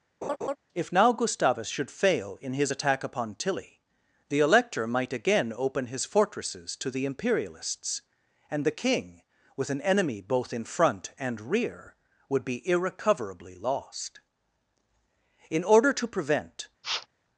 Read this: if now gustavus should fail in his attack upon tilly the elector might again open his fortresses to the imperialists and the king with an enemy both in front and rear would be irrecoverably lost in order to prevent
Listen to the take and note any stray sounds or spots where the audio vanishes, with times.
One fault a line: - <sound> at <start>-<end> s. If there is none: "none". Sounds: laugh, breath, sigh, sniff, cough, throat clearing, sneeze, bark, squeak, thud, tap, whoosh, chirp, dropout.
- laugh at 0.2-0.6 s
- sniff at 16.8-17.1 s